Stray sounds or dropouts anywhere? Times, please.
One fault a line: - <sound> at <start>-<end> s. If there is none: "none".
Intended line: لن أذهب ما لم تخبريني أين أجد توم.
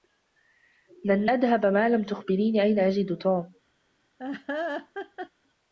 - laugh at 4.2-5.3 s